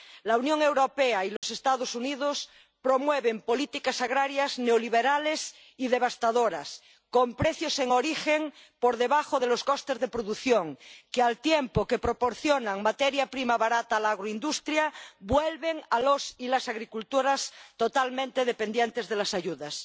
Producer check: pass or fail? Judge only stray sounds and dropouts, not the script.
fail